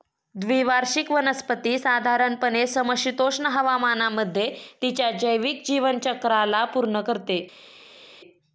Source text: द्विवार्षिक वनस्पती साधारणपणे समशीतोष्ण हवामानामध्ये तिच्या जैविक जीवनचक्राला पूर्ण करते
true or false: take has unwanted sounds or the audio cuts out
false